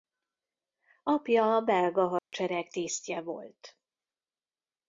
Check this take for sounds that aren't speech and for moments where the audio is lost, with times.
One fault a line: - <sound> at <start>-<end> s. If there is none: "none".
- dropout at 2.2-2.3 s